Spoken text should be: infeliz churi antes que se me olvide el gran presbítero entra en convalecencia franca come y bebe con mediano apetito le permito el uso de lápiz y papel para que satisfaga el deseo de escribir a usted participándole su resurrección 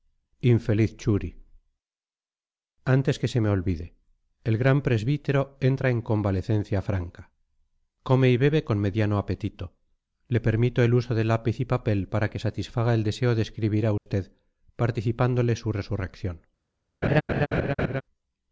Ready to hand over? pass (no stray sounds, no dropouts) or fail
fail